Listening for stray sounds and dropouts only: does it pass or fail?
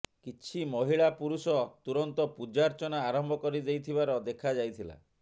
pass